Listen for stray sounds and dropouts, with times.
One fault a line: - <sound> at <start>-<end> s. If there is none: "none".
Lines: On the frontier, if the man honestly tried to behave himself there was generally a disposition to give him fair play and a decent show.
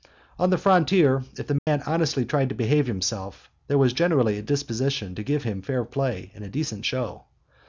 - dropout at 1.6-1.7 s